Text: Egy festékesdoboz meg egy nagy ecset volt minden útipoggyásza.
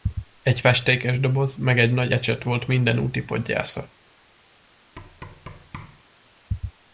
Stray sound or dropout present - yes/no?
yes